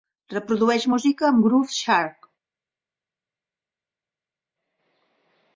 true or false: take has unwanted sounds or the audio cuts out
false